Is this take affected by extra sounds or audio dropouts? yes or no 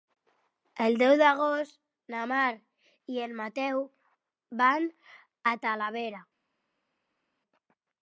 no